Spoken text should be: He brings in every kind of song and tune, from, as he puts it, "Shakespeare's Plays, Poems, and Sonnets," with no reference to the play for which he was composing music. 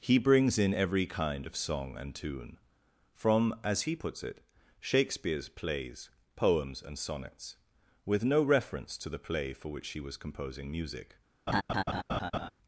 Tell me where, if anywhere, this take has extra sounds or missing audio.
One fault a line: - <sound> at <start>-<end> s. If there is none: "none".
- laugh at 11.5-12.5 s